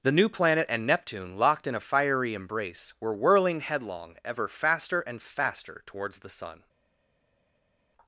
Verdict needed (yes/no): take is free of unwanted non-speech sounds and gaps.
yes